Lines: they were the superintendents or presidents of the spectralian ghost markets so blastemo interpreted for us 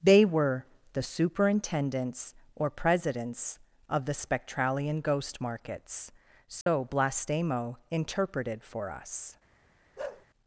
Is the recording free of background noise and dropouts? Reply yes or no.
no